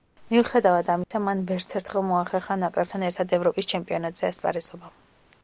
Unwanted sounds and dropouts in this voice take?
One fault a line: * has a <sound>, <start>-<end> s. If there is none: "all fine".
* has a dropout, 1.0-1.1 s